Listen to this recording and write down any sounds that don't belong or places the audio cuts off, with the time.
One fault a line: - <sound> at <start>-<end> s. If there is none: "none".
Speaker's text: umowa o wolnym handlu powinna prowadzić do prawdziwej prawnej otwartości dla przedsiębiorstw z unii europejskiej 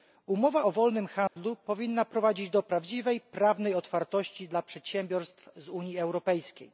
- dropout at 1.3-1.4 s